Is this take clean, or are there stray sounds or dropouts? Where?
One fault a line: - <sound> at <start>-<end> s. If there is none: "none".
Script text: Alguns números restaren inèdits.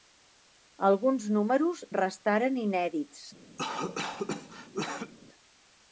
- cough at 3.6-5.1 s